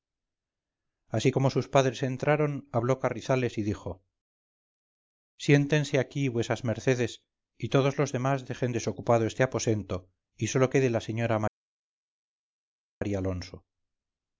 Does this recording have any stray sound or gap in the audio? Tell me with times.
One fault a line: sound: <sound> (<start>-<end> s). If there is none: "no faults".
no faults